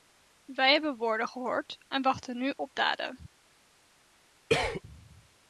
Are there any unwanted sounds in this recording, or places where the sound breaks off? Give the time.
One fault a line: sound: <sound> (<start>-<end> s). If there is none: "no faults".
sound: cough (4.5-4.8 s)